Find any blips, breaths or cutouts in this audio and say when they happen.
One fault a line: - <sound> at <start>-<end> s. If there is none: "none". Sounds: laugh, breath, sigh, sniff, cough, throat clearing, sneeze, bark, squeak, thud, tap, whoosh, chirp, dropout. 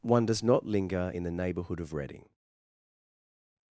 none